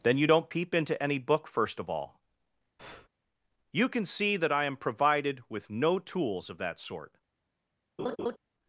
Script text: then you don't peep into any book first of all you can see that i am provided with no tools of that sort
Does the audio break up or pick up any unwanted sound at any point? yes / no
yes